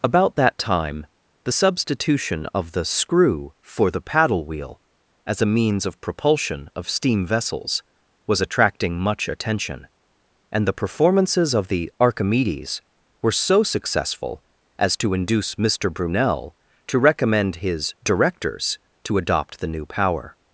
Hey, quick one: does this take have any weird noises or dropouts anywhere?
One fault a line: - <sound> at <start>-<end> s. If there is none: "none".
none